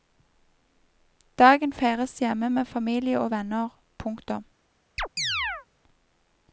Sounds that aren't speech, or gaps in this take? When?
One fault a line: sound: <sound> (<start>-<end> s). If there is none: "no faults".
sound: chirp (5.0-5.7 s)